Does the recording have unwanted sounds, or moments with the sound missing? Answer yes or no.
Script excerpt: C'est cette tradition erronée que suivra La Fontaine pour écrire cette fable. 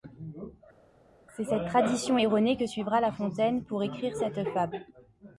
no